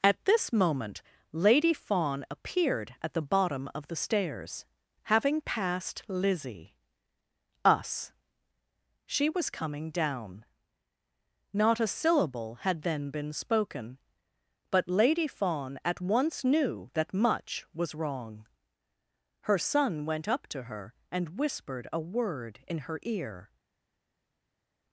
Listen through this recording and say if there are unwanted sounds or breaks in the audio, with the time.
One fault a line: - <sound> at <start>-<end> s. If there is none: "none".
none